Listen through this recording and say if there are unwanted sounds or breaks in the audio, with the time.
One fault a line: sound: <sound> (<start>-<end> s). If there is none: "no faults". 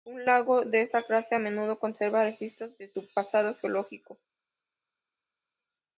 no faults